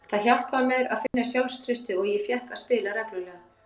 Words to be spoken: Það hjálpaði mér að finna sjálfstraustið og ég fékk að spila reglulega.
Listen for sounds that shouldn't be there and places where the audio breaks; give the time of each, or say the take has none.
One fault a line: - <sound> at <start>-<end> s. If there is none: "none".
- dropout at 1.1-1.1 s